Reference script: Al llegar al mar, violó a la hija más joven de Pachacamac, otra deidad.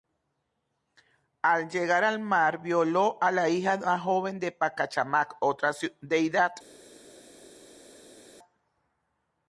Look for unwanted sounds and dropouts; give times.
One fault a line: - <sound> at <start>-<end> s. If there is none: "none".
none